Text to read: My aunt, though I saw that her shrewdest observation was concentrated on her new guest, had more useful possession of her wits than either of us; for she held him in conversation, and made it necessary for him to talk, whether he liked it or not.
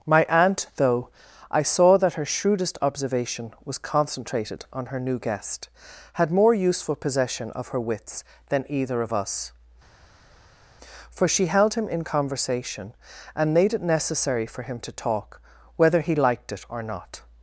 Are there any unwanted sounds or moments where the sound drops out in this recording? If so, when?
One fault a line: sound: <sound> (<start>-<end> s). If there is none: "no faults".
no faults